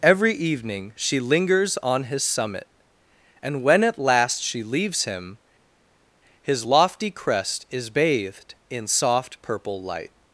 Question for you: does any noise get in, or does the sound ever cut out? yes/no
no